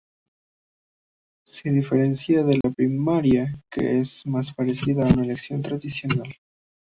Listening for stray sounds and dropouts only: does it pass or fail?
fail